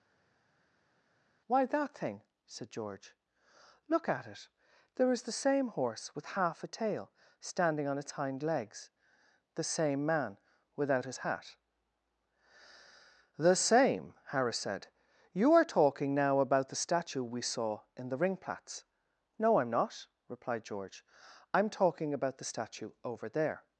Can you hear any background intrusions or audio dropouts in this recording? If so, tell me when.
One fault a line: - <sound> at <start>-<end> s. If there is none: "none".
none